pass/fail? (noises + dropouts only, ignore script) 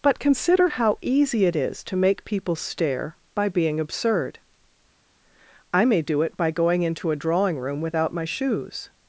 pass